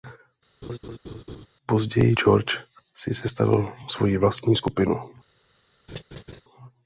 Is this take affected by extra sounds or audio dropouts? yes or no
yes